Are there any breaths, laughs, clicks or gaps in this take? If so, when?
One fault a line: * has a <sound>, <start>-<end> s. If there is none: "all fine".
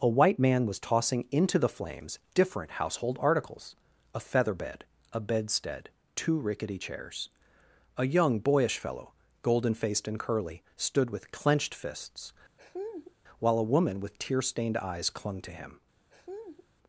* has a laugh, 12.6-13.1 s
* has a laugh, 16.1-16.7 s